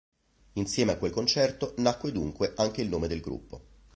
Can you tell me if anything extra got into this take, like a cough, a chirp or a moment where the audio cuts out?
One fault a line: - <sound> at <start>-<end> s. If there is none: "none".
none